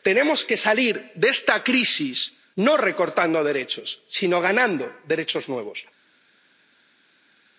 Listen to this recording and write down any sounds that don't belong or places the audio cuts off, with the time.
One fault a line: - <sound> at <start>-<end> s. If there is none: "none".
none